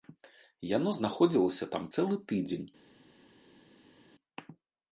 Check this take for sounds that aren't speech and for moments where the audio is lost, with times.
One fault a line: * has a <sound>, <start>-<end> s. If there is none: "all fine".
all fine